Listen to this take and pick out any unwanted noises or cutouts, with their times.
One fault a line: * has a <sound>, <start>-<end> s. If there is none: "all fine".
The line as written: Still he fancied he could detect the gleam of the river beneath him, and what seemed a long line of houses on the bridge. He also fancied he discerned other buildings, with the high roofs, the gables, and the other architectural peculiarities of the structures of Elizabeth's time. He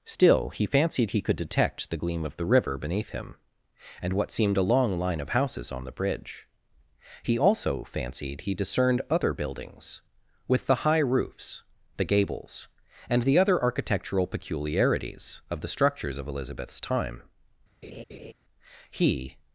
* has a laugh, 17.8-18.3 s